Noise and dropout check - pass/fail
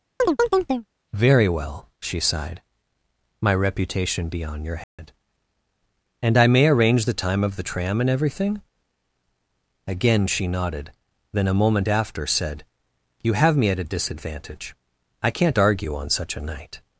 fail